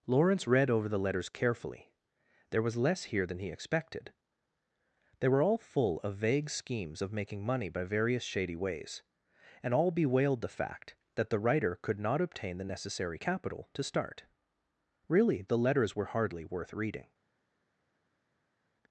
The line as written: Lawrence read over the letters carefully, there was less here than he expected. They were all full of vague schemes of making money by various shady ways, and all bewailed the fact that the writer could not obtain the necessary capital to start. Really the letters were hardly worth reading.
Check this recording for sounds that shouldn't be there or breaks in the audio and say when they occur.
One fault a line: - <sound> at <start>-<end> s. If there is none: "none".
none